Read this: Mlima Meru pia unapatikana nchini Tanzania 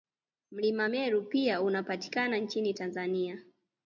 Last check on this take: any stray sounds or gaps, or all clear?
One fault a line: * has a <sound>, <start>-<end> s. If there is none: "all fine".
all fine